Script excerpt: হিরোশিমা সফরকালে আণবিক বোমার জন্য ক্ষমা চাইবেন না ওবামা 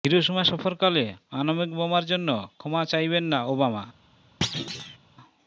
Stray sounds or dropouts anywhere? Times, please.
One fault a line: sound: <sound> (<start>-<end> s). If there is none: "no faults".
sound: thud (4.4-5.0 s)